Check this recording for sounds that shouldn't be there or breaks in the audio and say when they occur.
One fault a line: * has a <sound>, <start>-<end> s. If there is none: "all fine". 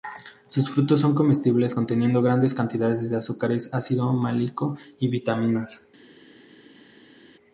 all fine